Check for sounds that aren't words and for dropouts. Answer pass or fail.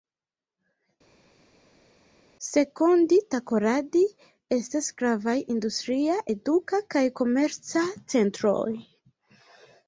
pass